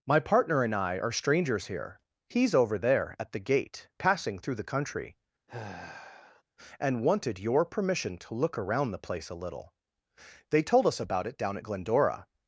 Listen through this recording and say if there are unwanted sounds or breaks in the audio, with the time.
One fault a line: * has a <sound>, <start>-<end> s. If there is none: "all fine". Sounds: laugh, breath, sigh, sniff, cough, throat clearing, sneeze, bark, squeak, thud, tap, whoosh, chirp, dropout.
* has a sigh, 5.5-6.4 s